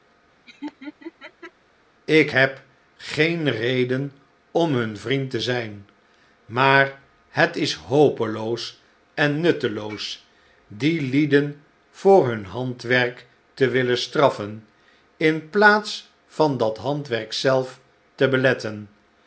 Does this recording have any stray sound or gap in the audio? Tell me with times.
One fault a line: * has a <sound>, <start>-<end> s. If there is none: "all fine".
* has a laugh, 0.5-1.5 s